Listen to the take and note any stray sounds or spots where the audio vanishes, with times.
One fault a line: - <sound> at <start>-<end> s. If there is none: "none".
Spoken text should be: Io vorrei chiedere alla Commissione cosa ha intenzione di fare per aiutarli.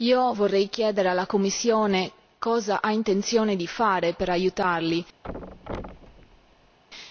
- thud at 5.2-6.8 s